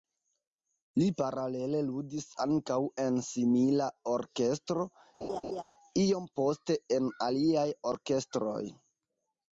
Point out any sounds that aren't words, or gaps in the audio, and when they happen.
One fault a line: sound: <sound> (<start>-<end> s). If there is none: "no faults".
sound: laugh (5.2-5.6 s)